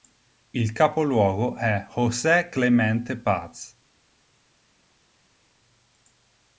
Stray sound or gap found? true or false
false